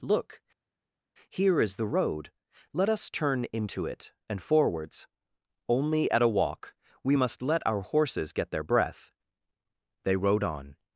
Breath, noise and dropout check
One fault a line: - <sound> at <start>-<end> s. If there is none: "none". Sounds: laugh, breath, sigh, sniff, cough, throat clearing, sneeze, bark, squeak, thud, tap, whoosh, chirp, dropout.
none